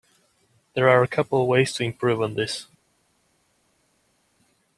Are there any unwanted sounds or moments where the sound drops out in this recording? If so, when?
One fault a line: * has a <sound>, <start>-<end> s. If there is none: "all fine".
all fine